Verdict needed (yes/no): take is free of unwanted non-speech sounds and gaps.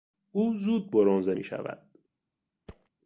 no